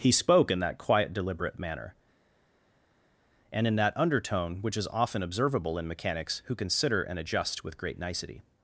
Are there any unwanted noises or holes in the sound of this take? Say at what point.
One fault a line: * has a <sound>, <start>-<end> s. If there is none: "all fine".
all fine